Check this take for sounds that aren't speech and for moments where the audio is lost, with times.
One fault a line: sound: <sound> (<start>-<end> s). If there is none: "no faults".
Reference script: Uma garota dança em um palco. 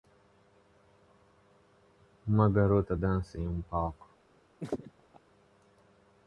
sound: laugh (4.6-5.2 s)